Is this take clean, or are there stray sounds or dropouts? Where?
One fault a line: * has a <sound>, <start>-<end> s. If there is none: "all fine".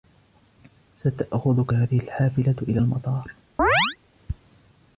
* has a chirp, 3.6-4.0 s